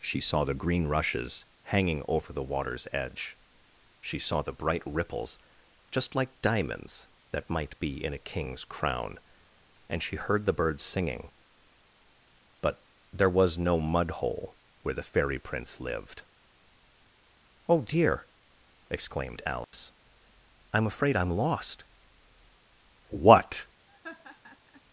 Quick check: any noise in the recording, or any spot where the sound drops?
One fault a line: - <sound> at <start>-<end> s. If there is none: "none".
- dropout at 19.6-19.7 s
- laugh at 23.9-24.8 s